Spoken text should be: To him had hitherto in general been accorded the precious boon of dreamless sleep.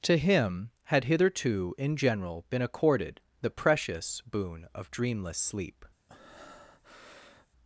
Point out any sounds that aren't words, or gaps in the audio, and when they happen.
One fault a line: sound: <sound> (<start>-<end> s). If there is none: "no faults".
sound: breath (6.1-7.5 s)